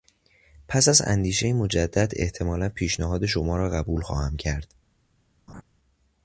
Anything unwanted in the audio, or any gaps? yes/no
yes